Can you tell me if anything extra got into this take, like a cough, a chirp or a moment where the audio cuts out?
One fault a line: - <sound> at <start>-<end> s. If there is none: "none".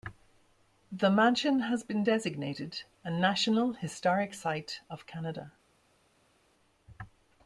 none